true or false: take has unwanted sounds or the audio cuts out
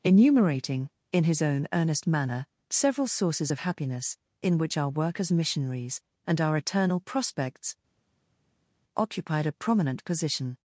false